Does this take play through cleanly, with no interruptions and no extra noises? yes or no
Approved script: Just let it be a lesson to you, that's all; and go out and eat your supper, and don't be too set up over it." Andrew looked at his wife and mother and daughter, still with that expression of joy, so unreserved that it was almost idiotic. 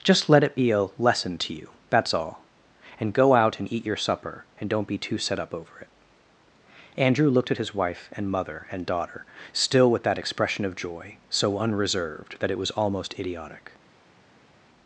yes